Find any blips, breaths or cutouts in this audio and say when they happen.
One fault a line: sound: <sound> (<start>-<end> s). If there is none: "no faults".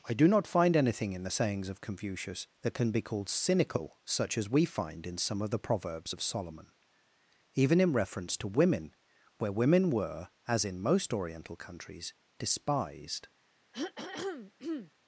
sound: throat clearing (13.7-14.9 s)